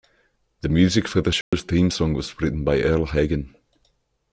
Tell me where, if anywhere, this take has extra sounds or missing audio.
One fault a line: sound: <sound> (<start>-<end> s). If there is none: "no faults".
sound: dropout (1.4-1.5 s)